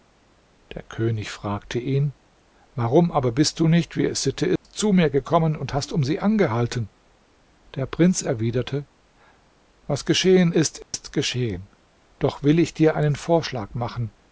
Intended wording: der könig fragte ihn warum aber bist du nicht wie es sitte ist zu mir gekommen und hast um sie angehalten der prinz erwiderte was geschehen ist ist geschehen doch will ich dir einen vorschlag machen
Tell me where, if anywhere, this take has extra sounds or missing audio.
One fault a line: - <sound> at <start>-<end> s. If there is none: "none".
- dropout at 4.6-4.6 s
- dropout at 10.8-10.9 s